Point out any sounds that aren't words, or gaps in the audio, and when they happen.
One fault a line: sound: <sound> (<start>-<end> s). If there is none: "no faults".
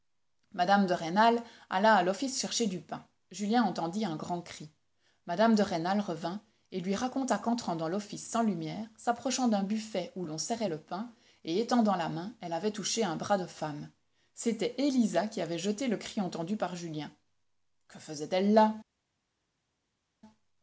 no faults